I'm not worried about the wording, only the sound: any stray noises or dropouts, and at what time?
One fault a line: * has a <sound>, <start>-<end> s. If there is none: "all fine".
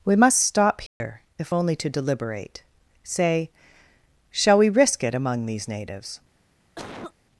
* has a dropout, 0.9-1.0 s
* has a cough, 6.8-7.1 s